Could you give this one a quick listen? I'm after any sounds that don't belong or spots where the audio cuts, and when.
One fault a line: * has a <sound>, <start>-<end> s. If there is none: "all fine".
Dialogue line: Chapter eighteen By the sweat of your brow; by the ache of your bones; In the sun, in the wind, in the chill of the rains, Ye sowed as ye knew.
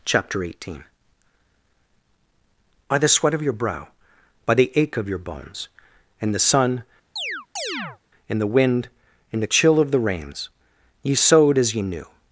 * has a chirp, 7.2-8.0 s